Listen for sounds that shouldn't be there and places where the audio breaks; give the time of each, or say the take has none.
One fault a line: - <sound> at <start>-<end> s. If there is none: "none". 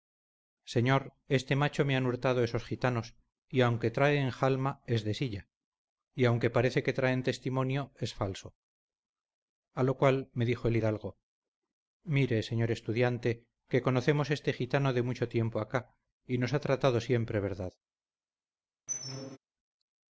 - squeak at 18.9-19.4 s